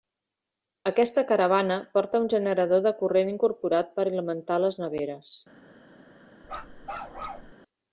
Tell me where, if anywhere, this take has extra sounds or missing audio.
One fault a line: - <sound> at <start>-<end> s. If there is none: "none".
- bark at 6.4-7.5 s